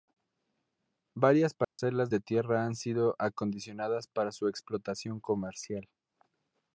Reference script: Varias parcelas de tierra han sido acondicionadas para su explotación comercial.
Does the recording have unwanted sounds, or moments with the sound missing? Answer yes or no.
yes